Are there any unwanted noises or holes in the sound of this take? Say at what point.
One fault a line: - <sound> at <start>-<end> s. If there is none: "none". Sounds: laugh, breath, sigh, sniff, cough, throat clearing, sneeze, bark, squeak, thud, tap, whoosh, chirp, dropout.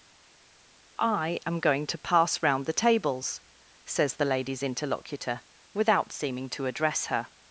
none